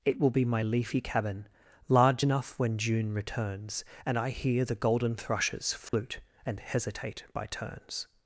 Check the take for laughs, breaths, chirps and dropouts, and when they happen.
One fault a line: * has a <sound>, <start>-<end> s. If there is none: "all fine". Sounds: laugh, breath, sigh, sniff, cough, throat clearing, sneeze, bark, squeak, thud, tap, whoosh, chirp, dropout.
* has a dropout, 5.9-5.9 s